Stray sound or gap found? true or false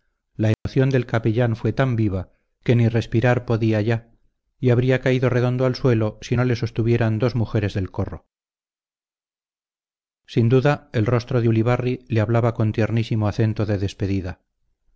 true